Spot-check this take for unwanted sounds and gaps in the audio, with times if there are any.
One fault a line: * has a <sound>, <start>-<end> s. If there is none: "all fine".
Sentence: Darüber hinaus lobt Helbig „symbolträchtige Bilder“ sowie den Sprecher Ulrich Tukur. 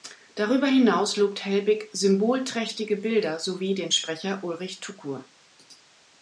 all fine